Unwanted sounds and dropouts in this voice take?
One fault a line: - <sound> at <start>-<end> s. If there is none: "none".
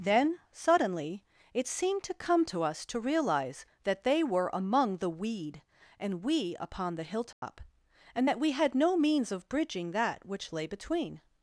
- dropout at 7.3-7.4 s